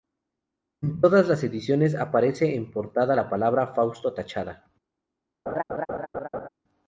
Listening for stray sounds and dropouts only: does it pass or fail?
fail